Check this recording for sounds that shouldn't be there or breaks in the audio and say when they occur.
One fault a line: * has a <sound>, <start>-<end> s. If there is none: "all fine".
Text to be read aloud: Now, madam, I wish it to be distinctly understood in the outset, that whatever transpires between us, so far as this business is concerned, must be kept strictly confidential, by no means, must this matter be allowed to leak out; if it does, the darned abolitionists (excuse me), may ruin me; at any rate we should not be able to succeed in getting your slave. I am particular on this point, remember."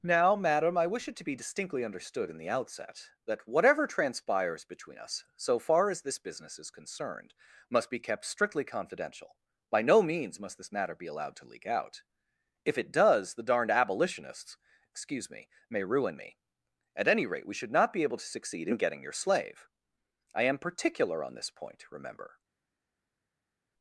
all fine